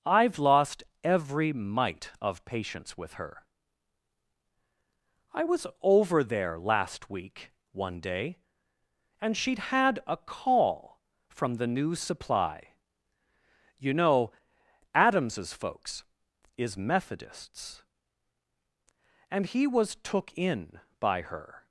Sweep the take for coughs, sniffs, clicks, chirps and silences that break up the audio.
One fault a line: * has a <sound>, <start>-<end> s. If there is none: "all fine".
all fine